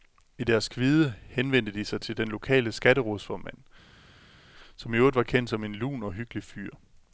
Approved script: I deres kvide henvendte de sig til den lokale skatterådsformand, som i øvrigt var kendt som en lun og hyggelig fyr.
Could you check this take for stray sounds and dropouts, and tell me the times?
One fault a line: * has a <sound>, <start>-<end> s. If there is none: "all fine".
all fine